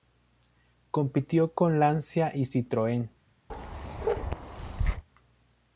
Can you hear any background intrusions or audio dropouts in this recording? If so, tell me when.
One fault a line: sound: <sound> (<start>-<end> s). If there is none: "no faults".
sound: bark (3.5-5.0 s)